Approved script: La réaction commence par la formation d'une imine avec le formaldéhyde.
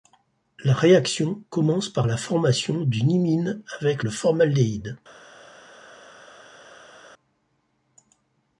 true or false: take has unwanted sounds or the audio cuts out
false